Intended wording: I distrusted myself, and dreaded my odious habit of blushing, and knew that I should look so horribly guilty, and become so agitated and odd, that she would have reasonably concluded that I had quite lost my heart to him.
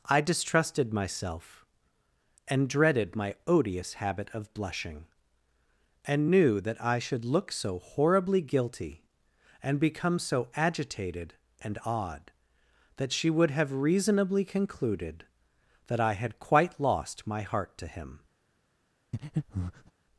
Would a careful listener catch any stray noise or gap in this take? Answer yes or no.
yes